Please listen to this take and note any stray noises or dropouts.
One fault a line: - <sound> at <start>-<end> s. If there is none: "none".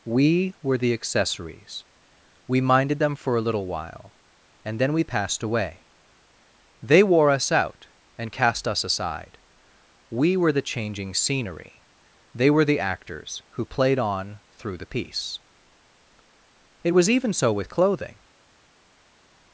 none